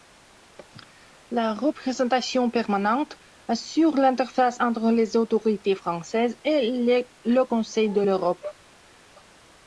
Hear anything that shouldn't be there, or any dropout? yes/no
no